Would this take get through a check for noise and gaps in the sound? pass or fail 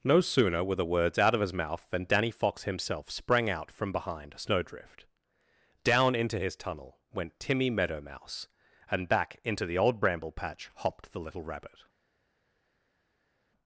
pass